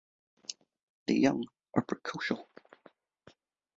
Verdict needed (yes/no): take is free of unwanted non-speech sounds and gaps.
yes